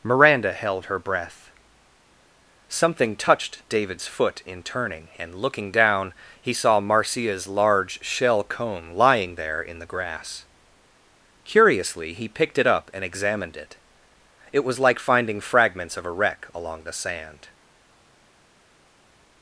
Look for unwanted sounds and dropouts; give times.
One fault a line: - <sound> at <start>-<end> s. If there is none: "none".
none